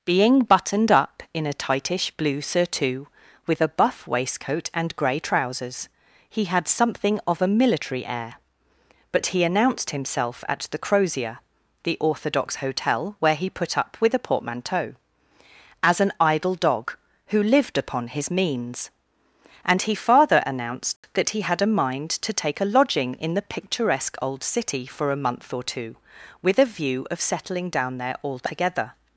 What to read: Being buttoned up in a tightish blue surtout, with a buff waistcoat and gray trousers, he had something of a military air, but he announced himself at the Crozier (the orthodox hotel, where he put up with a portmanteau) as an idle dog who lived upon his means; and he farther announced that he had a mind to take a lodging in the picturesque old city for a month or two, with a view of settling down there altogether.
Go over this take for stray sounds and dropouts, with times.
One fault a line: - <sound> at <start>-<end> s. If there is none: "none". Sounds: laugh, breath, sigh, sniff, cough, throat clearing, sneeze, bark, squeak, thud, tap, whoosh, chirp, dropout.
- dropout at 21.0-21.0 s